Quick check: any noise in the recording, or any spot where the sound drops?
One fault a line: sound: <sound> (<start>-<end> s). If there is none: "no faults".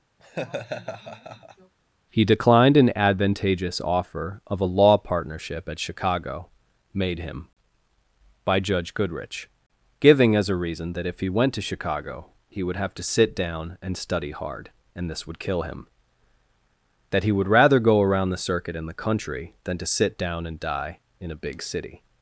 sound: laugh (0.2-1.7 s)